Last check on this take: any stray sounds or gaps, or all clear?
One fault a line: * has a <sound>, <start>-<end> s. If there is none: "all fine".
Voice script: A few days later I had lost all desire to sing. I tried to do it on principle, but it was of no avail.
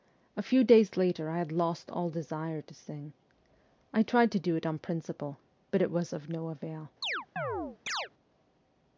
* has a chirp, 7.0-8.1 s